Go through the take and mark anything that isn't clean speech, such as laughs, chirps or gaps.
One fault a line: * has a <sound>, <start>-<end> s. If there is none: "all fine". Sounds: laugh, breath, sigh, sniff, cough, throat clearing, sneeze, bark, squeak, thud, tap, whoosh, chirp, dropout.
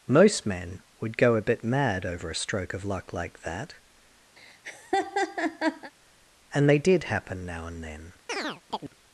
* has a laugh, 4.4-5.9 s
* has a chirp, 8.3-8.9 s